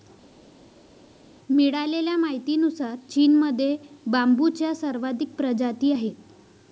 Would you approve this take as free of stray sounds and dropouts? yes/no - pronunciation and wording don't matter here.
yes